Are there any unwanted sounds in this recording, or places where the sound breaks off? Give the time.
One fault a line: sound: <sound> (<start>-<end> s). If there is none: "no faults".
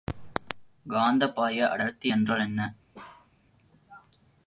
sound: bark (2.9-3.3 s)